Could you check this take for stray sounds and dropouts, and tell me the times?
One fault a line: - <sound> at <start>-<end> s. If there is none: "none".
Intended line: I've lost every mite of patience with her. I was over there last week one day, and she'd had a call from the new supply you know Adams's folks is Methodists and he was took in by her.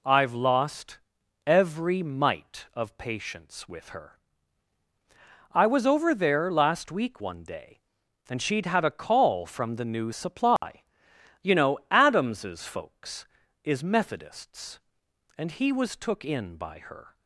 - dropout at 10.6-10.6 s